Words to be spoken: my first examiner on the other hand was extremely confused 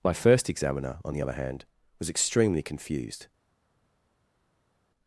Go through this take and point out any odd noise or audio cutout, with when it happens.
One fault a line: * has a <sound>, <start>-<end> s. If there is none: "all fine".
all fine